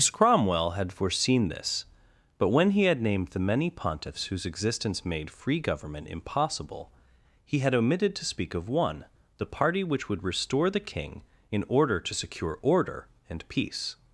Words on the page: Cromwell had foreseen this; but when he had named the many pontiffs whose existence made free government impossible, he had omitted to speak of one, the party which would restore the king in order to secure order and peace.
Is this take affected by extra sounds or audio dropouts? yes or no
no